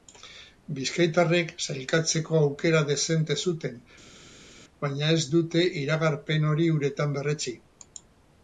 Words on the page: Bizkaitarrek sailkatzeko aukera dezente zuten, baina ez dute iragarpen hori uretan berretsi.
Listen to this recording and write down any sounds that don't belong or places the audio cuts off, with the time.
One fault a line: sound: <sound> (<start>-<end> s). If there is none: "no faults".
no faults